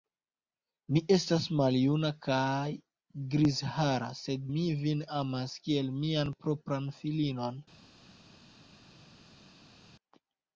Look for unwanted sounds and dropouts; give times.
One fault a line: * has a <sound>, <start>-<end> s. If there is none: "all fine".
all fine